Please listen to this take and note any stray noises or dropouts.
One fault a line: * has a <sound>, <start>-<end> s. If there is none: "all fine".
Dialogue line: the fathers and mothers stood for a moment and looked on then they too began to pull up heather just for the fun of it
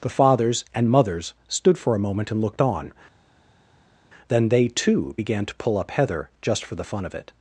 all fine